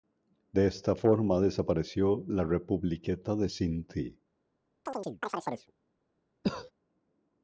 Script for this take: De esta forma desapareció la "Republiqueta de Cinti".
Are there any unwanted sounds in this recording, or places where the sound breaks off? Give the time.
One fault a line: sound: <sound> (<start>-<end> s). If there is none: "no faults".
sound: chirp (4.9-5.7 s)
sound: cough (6.4-6.7 s)